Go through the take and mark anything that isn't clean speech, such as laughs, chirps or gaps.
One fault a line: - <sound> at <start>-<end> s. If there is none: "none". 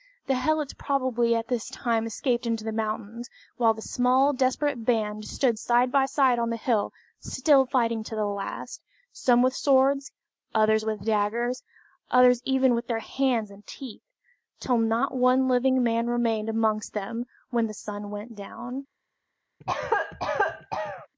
- cough at 19.6-21.1 s